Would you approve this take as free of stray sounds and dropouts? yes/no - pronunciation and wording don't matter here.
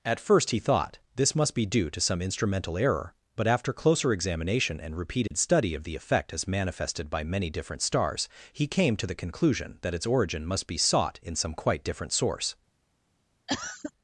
no